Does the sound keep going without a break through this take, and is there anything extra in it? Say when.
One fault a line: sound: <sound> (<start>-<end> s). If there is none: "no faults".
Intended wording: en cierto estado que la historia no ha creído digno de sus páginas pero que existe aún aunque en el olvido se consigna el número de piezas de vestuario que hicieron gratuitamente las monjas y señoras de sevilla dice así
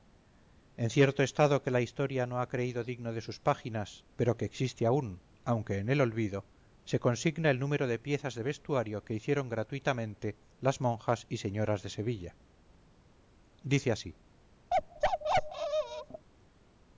sound: bark (14.7-16.3 s)